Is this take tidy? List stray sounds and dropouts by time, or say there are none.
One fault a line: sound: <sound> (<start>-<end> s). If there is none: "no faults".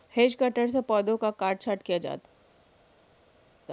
no faults